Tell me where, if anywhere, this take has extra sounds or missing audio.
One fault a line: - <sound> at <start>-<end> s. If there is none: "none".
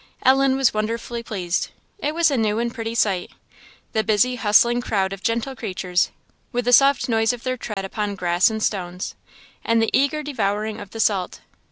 - dropout at 7.7-7.8 s